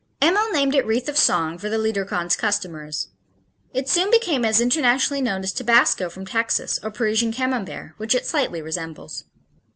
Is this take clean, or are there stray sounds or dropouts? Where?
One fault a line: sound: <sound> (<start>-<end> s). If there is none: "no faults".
no faults